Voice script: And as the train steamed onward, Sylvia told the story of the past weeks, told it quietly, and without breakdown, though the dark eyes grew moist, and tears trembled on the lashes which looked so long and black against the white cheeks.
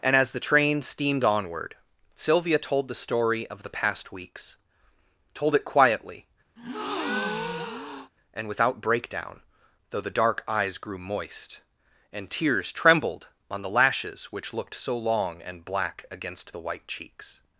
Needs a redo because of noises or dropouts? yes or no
yes